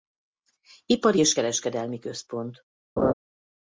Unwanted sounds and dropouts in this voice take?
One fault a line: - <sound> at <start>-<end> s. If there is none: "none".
- laugh at 3.0-3.1 s